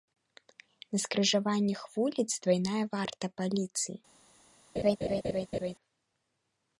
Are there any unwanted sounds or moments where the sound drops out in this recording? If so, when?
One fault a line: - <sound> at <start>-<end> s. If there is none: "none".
- laugh at 4.8-5.7 s